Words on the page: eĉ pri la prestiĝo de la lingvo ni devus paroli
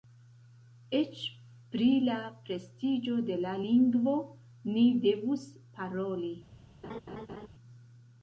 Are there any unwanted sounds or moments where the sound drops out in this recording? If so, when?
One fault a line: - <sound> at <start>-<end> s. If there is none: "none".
- laugh at 6.8-7.5 s